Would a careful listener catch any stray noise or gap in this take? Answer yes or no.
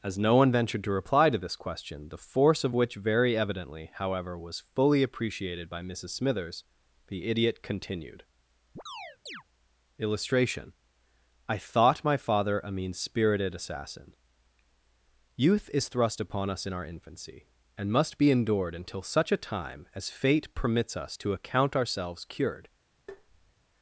yes